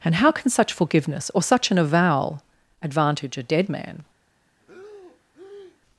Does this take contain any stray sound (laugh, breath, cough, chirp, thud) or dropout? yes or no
yes